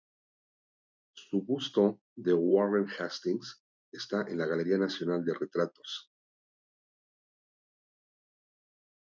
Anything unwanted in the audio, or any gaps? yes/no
no